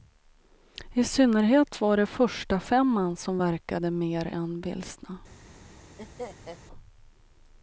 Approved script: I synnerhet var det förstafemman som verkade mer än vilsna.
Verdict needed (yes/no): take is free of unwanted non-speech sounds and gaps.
no